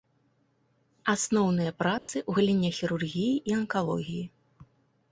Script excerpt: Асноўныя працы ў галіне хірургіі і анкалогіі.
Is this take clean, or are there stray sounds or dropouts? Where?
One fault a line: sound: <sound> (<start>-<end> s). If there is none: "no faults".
sound: dropout (2.0-2.1 s)